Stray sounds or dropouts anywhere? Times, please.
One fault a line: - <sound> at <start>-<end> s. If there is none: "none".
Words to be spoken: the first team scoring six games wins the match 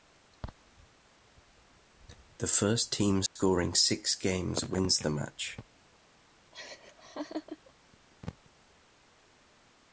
- dropout at 3.3-3.4 s
- laugh at 6.5-7.7 s